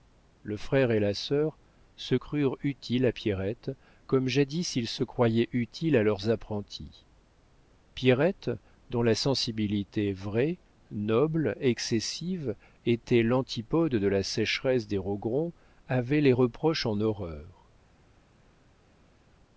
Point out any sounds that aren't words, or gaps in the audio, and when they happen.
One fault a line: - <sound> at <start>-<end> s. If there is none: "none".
none